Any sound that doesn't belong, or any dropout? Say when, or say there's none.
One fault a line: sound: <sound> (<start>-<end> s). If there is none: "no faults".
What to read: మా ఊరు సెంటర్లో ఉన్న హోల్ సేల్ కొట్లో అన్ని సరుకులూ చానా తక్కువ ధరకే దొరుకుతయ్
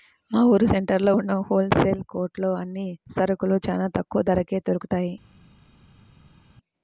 no faults